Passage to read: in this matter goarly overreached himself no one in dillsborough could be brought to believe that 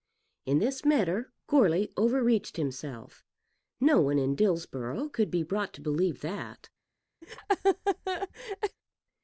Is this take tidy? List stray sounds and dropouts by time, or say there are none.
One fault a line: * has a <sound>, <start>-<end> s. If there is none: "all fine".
* has a laugh, 7.2-8.8 s